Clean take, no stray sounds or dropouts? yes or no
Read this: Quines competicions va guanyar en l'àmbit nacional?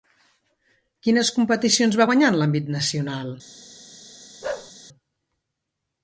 no